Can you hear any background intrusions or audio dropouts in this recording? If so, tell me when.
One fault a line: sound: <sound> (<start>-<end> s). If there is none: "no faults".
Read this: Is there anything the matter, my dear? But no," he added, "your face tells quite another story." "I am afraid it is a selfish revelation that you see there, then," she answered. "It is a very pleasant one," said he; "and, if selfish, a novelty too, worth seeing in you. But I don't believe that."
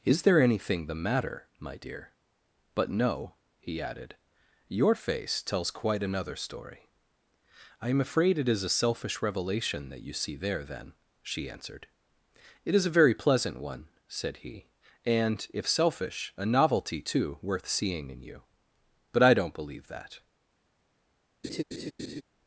sound: laugh (21.4-22.2 s)